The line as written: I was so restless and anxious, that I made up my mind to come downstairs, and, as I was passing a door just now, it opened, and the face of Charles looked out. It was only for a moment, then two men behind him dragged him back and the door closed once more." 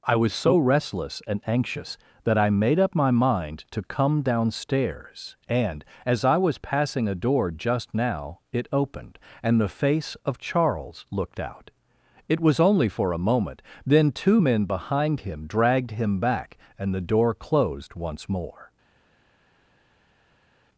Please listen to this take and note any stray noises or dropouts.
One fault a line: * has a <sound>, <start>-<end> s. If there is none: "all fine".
all fine